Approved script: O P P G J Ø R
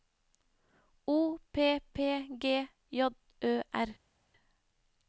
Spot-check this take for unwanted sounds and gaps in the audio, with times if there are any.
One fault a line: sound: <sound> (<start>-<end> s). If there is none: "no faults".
no faults